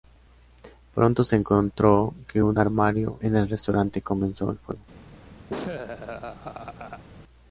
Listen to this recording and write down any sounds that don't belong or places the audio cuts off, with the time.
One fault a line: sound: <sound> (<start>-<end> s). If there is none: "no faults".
sound: laugh (5.5-7.0 s)